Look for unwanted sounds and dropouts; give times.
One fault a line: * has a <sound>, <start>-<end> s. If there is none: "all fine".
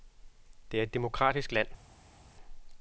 all fine